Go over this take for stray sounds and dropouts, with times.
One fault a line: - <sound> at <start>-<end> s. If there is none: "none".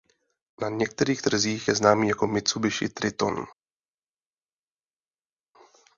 none